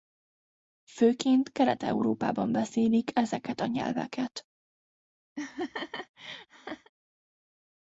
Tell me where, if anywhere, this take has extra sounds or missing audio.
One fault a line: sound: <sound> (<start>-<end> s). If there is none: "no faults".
sound: laugh (5.4-6.9 s)